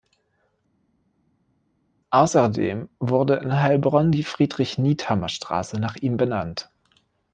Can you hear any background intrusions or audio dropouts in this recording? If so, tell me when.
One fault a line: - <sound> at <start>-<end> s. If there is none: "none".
none